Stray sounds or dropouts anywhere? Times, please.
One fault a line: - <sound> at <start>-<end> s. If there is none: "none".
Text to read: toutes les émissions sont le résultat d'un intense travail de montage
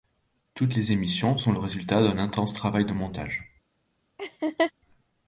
- laugh at 4.2-4.7 s